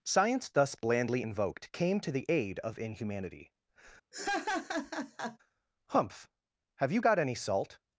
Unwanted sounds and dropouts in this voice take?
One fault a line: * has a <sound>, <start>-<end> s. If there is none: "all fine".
* has a laugh, 4.1-5.4 s